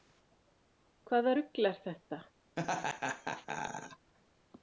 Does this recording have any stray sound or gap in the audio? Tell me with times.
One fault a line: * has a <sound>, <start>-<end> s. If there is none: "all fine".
* has a laugh, 2.6-4.1 s